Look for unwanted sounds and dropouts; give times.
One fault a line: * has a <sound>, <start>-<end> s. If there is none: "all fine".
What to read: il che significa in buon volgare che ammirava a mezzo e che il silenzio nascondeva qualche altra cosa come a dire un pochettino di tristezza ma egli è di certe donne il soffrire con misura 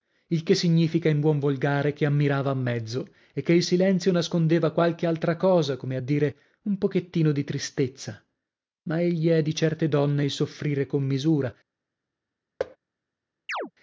* has a thud, 12.6-12.8 s
* has a chirp, 13.5-13.7 s